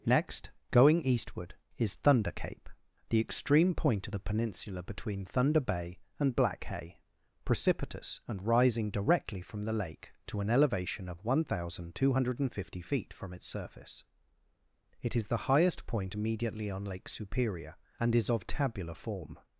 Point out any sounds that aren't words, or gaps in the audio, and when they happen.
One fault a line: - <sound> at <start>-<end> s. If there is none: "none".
none